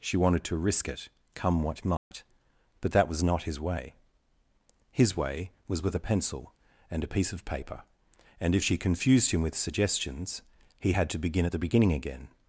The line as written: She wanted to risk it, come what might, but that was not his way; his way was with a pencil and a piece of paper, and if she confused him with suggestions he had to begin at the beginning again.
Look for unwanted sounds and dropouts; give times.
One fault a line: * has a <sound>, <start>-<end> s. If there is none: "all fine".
* has a dropout, 2.0-2.1 s